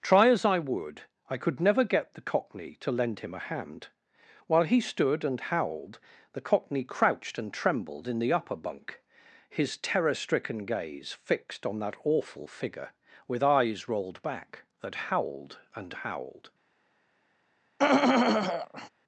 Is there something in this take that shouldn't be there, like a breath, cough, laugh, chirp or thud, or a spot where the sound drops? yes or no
yes